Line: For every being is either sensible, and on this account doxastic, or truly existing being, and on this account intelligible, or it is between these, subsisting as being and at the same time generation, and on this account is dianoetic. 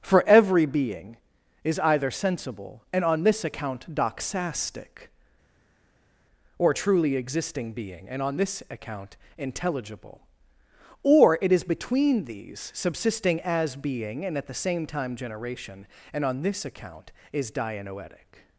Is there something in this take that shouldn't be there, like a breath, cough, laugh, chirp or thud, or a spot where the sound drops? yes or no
no